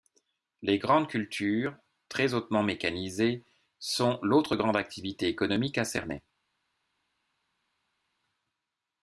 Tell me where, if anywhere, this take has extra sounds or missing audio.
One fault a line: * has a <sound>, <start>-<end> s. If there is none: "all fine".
all fine